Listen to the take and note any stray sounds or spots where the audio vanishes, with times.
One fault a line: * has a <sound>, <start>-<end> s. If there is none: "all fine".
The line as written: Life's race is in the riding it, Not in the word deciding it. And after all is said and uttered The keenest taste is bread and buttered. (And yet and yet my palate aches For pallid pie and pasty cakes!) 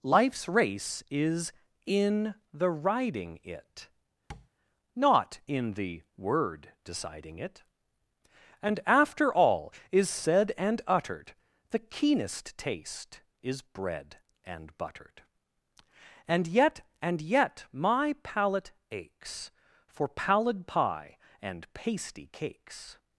* has a tap, 4.3-4.5 s